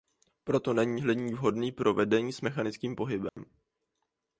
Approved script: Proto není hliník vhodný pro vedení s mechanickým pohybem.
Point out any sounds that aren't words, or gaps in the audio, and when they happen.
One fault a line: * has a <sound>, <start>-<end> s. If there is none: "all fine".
* has a dropout, 3.3-3.4 s